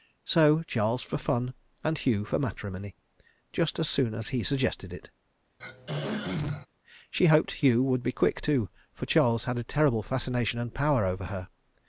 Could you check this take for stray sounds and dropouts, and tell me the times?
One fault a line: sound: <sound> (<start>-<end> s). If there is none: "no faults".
sound: throat clearing (5.6-6.7 s)